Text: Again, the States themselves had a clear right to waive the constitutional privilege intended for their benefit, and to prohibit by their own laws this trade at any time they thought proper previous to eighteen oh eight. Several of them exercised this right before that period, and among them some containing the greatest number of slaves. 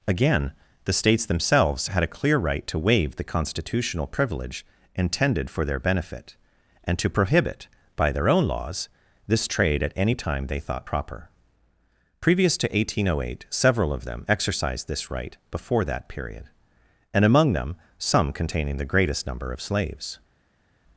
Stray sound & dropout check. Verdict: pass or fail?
pass